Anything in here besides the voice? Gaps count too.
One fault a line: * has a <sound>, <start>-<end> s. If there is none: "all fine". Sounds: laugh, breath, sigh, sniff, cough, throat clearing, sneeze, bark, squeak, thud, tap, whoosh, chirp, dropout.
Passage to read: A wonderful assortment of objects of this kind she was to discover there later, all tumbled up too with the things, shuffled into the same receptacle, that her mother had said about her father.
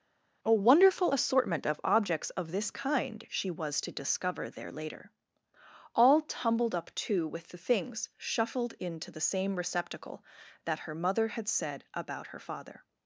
all fine